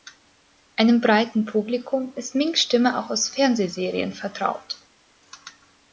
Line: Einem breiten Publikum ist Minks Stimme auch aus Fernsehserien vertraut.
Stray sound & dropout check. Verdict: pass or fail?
pass